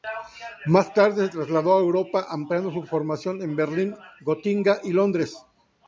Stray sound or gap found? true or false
false